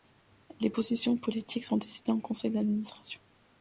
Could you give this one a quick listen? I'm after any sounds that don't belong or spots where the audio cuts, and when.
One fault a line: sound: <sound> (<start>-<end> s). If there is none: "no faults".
no faults